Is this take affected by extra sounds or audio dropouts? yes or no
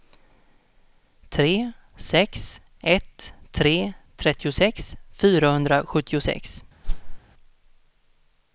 yes